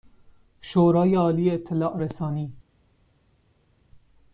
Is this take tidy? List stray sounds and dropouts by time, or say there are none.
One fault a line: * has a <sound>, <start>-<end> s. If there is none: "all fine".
all fine